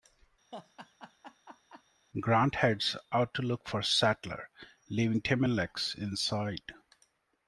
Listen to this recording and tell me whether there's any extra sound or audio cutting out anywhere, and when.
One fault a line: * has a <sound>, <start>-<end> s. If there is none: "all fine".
* has a laugh, 0.5-1.8 s